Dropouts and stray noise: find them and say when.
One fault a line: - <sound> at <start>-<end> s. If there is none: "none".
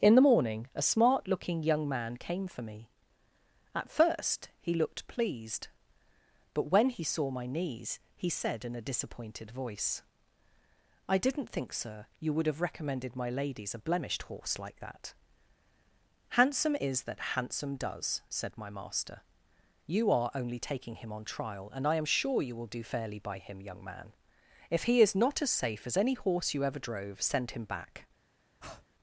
- breath at 28.6-28.9 s